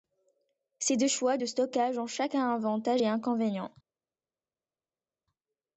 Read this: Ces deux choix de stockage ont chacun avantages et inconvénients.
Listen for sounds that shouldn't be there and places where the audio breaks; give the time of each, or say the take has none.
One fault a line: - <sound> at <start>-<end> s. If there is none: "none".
none